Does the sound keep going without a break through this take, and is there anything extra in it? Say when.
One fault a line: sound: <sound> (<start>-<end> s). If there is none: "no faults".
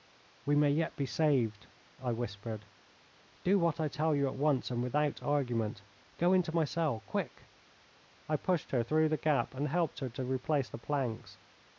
no faults